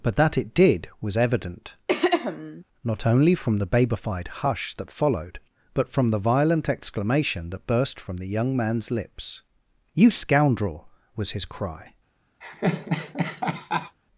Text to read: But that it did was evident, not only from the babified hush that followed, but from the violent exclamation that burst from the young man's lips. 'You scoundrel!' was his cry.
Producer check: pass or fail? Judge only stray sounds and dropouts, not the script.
fail